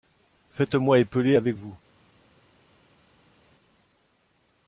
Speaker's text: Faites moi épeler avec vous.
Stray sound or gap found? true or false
false